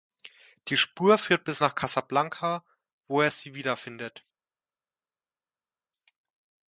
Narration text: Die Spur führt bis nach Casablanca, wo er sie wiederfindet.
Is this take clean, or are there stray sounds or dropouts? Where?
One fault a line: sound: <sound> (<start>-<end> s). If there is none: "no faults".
no faults